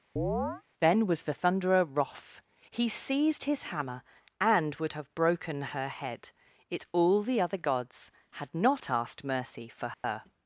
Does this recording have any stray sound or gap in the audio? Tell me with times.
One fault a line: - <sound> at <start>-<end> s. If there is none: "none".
- chirp at 0.2-0.6 s
- dropout at 9.9-10.0 s